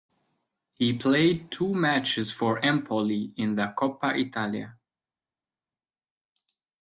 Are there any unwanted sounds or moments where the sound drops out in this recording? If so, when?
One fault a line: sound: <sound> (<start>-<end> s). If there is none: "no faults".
no faults